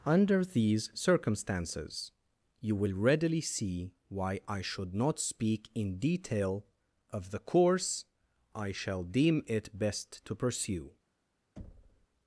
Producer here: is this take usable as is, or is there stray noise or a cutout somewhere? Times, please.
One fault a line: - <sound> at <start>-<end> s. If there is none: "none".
- thud at 11.6-12.1 s